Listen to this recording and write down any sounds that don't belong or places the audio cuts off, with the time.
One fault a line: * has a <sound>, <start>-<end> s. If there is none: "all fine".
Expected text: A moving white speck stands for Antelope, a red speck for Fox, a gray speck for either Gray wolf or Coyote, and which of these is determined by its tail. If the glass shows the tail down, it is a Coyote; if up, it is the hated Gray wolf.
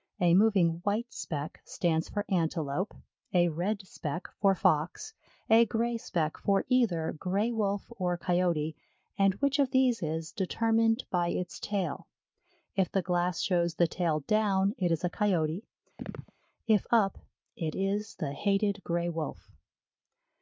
* has a chirp, 16.0-16.3 s